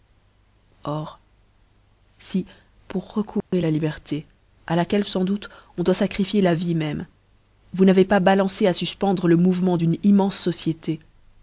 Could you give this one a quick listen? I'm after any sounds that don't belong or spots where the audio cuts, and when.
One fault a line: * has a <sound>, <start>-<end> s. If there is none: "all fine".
* has a dropout, 3.4-3.5 s